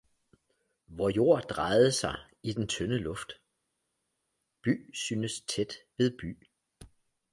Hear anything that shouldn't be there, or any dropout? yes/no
no